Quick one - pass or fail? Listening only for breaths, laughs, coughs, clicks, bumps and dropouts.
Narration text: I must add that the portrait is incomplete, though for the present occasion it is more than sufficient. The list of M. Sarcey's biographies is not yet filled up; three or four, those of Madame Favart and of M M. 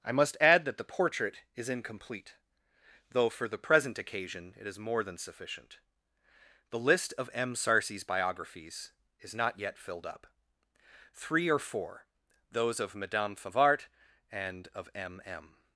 pass